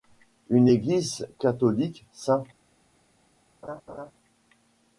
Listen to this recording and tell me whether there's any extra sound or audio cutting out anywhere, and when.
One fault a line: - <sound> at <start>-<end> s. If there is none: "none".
- laugh at 3.6-4.1 s